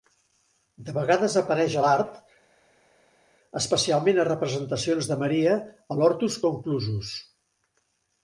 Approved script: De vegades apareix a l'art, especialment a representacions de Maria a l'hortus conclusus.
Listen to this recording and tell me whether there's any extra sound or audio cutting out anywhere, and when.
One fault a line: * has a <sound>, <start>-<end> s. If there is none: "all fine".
all fine